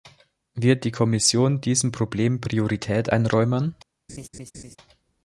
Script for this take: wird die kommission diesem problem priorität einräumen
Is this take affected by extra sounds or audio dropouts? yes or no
yes